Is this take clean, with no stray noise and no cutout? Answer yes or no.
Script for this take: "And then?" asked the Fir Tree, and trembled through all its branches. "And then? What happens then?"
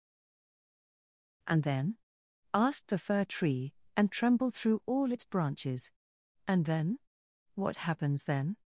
yes